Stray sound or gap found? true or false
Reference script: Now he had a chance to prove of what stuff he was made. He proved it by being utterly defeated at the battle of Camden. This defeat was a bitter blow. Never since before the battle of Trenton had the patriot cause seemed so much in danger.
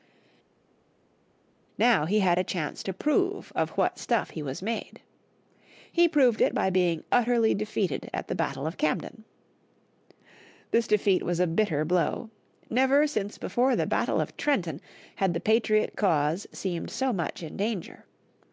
false